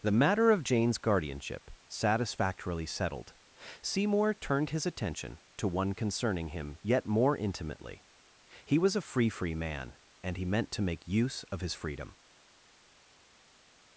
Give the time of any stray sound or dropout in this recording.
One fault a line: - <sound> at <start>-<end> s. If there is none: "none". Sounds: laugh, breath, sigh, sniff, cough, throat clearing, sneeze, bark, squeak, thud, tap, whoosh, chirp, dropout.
none